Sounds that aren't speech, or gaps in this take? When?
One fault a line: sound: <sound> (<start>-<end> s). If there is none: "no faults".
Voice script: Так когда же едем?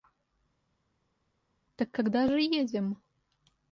no faults